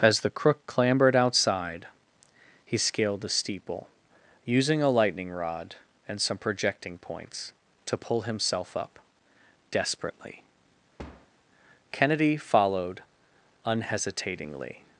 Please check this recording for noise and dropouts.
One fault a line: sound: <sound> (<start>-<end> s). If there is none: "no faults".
sound: thud (11.0-11.3 s)